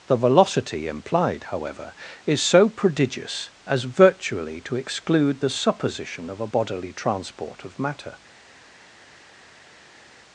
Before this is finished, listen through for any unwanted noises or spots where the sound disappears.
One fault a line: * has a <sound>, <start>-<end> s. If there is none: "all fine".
all fine